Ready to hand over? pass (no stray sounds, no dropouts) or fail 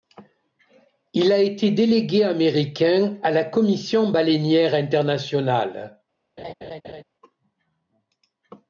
fail